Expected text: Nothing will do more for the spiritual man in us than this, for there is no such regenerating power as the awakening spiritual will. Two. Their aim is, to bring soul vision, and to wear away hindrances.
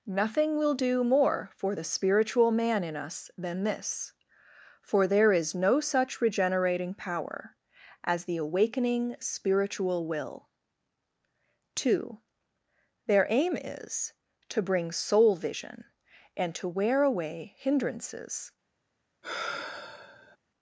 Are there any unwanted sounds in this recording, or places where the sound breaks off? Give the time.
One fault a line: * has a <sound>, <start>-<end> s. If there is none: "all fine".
* has a sigh, 19.2-20.4 s